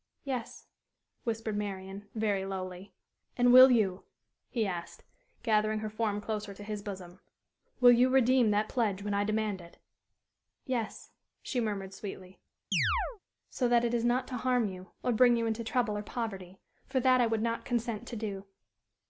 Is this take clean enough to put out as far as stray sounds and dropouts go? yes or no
no